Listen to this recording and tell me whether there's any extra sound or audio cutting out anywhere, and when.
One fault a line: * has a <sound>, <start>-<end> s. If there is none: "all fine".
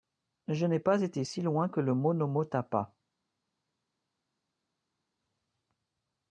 all fine